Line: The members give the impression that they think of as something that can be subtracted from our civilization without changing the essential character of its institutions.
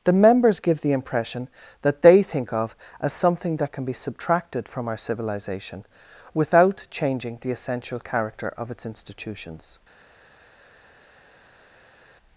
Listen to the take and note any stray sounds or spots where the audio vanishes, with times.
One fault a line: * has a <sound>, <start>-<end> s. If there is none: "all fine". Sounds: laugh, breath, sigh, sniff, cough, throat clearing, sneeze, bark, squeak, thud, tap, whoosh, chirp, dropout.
all fine